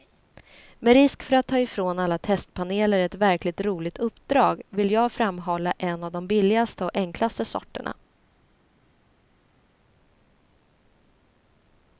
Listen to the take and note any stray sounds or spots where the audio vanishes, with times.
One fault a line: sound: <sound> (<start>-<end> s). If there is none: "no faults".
no faults